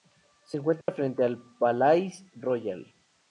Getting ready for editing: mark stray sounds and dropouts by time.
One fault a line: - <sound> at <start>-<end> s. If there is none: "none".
- dropout at 0.8-0.9 s